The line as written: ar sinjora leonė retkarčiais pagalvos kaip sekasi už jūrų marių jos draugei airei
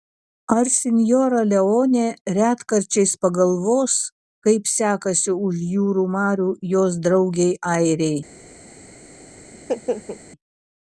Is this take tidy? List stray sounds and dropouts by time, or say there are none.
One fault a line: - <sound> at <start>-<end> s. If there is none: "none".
- laugh at 9.5-10.2 s